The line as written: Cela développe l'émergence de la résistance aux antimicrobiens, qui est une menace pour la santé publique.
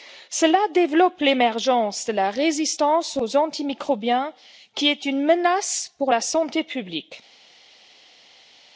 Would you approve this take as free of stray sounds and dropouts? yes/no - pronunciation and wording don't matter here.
yes